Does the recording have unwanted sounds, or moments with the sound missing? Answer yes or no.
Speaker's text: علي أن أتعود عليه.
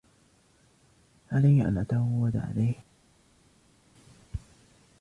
no